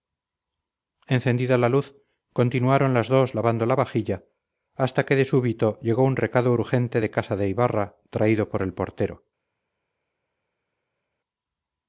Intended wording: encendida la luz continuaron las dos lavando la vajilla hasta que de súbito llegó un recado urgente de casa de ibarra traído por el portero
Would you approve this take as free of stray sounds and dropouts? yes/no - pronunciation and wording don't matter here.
yes